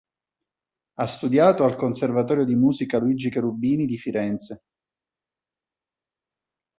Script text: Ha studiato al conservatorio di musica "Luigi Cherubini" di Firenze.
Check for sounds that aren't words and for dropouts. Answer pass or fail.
pass